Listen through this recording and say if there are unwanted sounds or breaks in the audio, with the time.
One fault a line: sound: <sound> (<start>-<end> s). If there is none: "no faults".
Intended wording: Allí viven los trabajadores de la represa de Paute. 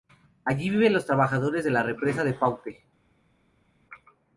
no faults